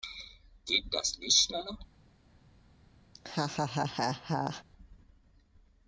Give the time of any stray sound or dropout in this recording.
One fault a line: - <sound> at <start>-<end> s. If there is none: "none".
- laugh at 3.1-4.6 s